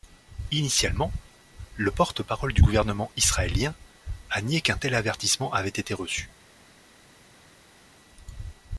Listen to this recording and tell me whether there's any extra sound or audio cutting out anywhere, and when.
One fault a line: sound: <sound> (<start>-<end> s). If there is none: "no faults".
no faults